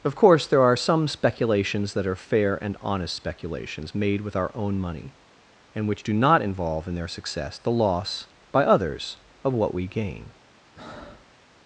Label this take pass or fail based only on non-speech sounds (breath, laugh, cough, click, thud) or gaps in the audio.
fail